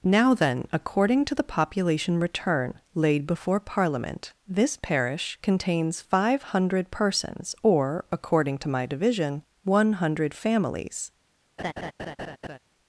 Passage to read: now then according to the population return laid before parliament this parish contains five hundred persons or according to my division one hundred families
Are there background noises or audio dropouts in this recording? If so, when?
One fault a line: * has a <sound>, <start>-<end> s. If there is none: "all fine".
* has a laugh, 11.6-12.6 s